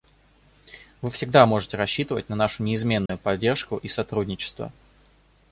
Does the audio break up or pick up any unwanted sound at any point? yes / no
yes